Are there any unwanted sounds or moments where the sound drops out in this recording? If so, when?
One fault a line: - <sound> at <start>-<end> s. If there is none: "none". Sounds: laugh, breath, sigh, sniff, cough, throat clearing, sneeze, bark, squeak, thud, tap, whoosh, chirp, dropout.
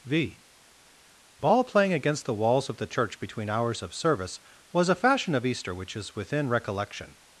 none